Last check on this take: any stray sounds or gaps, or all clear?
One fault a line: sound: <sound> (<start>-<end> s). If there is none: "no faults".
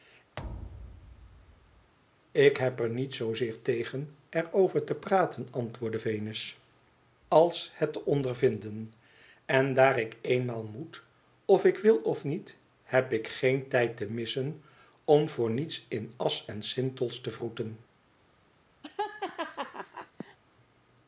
sound: thud (0.4-1.9 s)
sound: laugh (18.8-20.4 s)